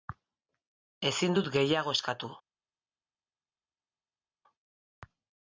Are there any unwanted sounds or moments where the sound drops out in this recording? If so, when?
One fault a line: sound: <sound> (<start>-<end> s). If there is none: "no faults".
no faults